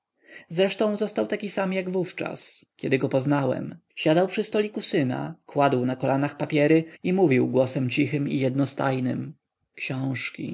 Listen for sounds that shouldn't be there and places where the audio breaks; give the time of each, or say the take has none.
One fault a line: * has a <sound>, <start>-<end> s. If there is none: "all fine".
all fine